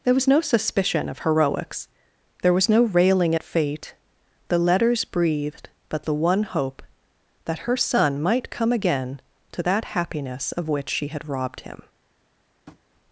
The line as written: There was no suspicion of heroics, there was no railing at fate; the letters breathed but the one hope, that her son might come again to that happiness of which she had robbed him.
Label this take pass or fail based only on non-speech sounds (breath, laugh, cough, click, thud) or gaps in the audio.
fail